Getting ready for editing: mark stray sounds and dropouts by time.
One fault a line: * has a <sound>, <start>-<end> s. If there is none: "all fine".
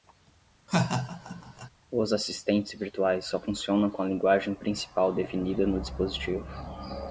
* has a laugh, 0.7-1.7 s